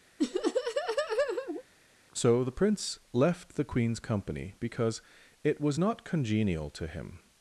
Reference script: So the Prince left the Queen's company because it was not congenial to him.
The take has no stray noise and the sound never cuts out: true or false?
false